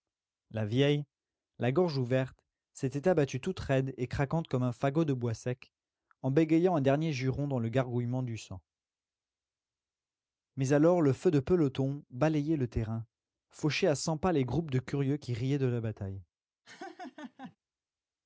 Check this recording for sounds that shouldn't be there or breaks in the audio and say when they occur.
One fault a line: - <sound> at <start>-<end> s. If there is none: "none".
- laugh at 16.6-17.6 s